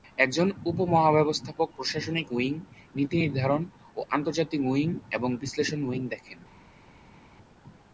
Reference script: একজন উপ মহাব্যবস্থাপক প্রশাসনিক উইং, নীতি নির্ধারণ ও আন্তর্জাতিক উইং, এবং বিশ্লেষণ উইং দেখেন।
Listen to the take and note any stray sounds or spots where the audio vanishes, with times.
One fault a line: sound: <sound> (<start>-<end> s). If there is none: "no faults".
no faults